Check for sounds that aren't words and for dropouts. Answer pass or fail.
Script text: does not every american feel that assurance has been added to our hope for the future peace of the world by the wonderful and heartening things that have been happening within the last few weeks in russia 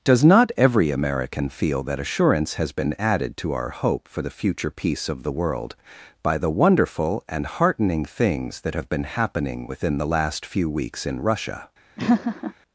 fail